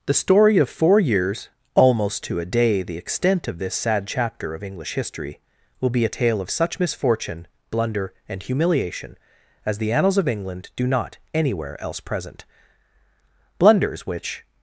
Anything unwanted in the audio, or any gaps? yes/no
no